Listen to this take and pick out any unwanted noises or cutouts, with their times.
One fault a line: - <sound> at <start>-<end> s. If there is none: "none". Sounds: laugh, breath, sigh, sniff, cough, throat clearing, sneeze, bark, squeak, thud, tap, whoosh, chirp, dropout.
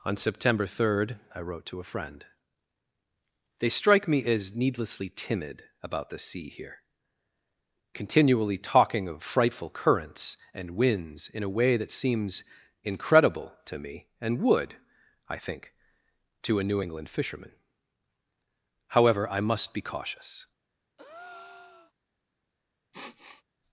- breath at 21.0-21.9 s
- sniff at 22.9-23.4 s